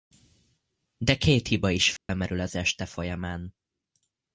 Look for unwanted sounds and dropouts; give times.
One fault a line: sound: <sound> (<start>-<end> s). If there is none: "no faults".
sound: dropout (2.0-2.1 s)